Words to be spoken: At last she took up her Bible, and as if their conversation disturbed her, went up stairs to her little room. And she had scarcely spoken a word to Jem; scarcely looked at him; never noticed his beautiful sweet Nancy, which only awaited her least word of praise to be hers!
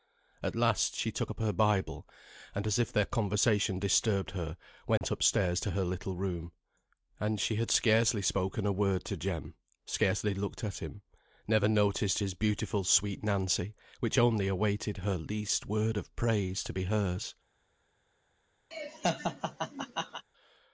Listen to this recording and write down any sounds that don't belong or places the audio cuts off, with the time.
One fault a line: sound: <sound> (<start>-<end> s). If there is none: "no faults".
sound: dropout (5.0-5.0 s)
sound: laugh (18.7-20.2 s)